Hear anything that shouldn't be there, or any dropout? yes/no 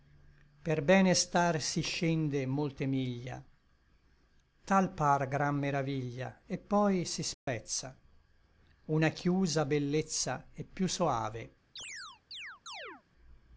yes